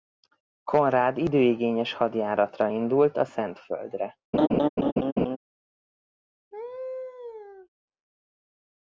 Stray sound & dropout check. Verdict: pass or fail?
fail